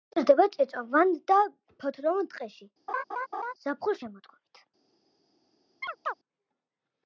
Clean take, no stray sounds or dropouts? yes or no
no